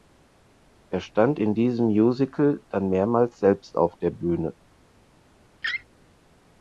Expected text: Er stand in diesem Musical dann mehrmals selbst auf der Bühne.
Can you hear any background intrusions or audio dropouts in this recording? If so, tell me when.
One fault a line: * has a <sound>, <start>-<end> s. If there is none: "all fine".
* has a laugh, 5.6-5.8 s